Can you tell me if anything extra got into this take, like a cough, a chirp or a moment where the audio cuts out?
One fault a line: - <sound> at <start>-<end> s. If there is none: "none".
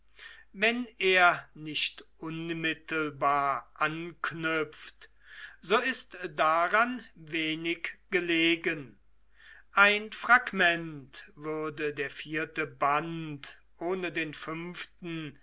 none